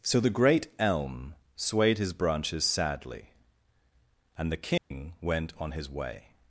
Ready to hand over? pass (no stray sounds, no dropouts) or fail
fail